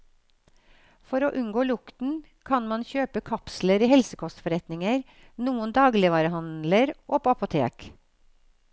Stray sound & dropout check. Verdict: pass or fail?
pass